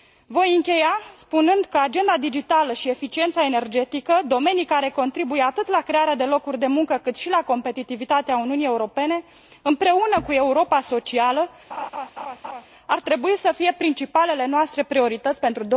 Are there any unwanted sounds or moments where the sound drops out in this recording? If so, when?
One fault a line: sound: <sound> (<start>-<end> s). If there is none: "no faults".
sound: laugh (11.7-12.7 s)